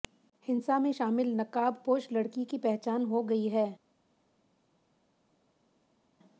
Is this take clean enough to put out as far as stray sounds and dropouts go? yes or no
yes